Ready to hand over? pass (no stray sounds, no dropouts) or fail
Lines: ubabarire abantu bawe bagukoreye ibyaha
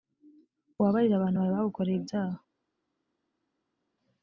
pass